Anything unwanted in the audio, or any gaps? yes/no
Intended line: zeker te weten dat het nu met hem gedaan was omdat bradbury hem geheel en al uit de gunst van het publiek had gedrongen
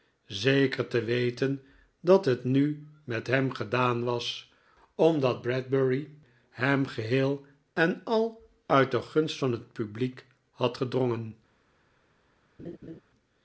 yes